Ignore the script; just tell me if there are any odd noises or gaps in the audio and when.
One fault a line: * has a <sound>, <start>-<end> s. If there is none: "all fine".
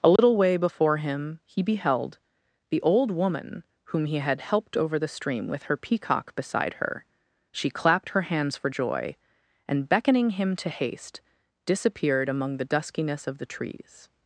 * has a dropout, 0.2-0.2 s